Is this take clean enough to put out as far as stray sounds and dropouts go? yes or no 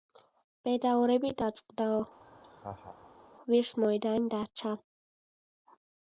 no